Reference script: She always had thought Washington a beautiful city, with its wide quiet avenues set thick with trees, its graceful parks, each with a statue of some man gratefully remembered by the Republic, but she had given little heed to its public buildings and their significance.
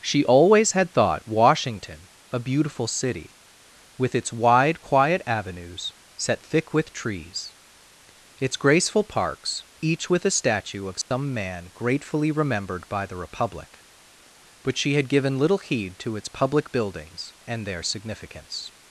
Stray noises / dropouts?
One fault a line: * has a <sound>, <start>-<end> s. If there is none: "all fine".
* has a dropout, 11.0-11.1 s